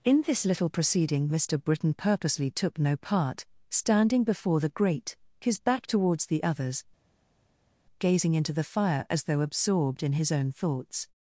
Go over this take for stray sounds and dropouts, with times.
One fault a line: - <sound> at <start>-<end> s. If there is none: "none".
none